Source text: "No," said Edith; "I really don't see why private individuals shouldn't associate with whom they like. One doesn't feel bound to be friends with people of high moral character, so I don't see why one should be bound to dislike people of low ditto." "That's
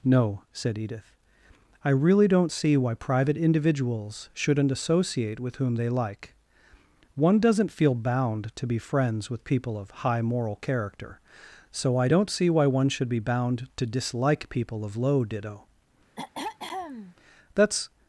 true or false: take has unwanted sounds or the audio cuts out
true